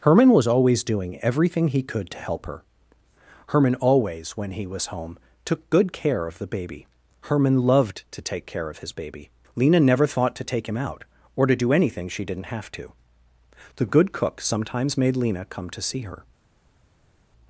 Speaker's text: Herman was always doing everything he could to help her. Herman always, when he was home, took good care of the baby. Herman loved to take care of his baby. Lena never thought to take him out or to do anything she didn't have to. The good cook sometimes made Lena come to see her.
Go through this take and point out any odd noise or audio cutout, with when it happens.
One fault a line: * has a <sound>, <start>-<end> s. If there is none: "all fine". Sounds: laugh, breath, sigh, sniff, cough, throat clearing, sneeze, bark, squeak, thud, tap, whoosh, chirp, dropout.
all fine